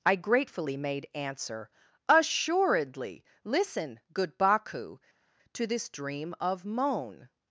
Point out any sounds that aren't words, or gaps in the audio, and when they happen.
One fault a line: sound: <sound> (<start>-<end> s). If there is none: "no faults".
no faults